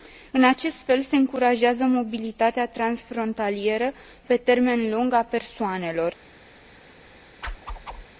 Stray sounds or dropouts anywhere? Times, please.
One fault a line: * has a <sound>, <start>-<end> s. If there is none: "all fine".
* has a whoosh, 7.4-8.1 s